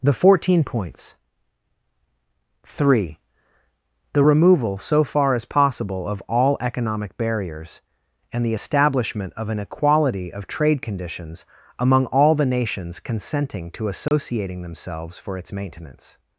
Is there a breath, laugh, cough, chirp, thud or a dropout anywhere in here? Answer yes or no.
yes